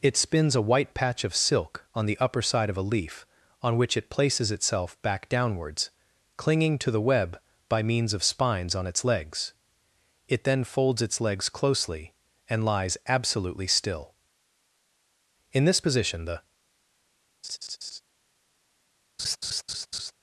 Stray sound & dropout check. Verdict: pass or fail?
fail